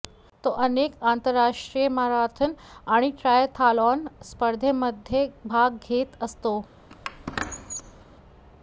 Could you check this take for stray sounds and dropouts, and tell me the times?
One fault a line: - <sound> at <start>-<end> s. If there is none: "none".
- squeak at 6.9-8.1 s